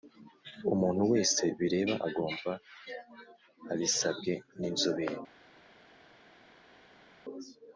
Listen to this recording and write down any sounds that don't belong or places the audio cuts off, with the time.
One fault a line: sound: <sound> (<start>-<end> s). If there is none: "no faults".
no faults